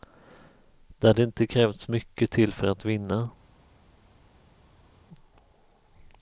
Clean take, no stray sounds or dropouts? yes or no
yes